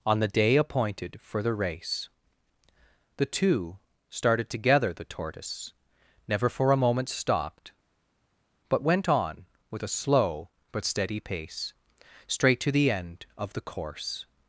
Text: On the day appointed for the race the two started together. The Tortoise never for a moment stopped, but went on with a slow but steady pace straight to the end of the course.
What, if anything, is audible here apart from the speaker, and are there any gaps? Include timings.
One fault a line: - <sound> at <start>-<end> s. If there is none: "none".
none